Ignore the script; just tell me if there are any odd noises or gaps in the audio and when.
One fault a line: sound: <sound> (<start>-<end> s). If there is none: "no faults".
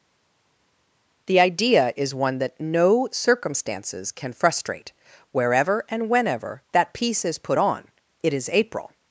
no faults